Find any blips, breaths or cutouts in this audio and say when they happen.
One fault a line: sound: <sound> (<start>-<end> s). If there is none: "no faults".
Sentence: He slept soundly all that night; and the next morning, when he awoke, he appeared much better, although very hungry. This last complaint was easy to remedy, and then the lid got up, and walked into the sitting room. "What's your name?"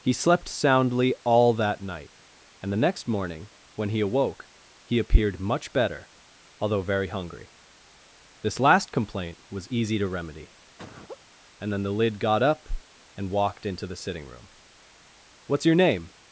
sound: laugh (10.8-11.2 s)